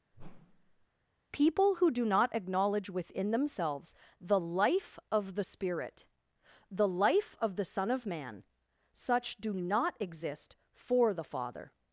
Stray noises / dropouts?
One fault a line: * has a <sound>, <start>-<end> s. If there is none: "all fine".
* has a whoosh, 0.1-0.9 s